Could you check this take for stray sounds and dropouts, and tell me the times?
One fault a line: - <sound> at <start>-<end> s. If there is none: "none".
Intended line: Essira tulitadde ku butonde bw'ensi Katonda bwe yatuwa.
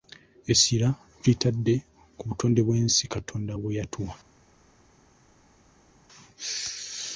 none